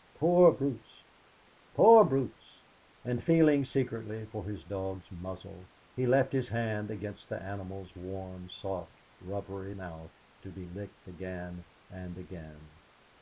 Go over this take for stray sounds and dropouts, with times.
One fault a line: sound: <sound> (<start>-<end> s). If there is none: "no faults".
no faults